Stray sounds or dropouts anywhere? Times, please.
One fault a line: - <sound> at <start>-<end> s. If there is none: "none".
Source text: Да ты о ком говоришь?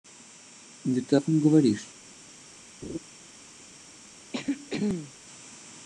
- laugh at 2.8-3.0 s
- throat clearing at 4.3-5.1 s